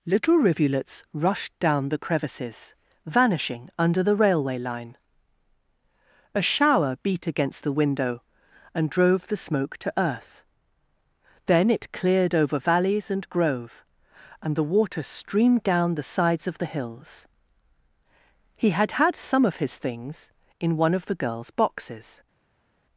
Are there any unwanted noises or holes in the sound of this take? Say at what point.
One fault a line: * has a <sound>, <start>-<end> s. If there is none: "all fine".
all fine